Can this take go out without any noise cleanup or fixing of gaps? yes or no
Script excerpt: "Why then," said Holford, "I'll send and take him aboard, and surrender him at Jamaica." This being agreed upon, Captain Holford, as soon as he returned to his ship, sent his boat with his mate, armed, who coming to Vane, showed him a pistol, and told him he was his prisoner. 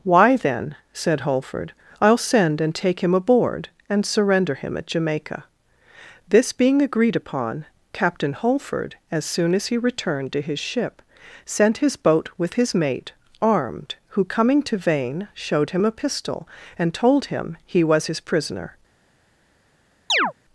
no